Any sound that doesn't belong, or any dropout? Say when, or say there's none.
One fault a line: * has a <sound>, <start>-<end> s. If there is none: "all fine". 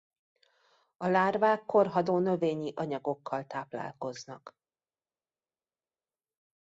all fine